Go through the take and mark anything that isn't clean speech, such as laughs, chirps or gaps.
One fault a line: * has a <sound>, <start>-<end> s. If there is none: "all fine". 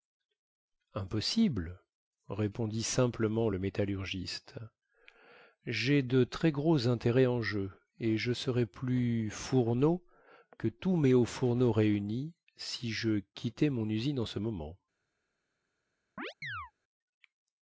* has a chirp, 16.2-16.7 s